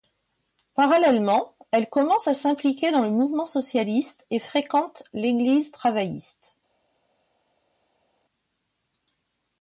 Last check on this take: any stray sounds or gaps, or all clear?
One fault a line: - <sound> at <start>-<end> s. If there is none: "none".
none